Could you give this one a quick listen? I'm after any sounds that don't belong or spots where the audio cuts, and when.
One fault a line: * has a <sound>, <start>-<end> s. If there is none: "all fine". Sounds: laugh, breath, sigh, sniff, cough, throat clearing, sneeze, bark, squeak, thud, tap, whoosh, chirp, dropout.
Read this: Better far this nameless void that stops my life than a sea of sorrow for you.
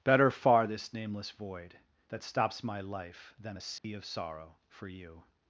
* has a dropout, 3.8-3.8 s